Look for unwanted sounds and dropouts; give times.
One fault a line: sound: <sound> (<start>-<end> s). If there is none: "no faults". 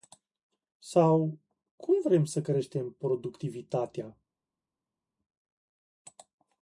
no faults